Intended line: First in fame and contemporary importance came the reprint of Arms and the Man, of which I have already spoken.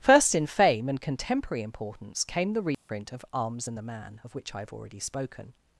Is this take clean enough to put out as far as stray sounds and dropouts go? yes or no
no